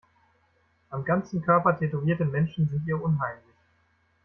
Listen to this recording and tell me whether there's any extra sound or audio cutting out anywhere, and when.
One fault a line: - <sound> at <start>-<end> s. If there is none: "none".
none